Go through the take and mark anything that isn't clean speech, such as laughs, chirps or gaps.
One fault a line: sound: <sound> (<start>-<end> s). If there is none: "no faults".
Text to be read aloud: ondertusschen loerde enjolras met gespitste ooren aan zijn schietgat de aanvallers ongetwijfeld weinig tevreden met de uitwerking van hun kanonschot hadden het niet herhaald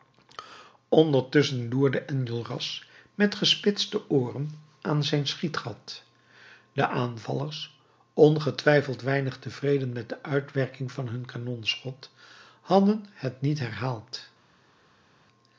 no faults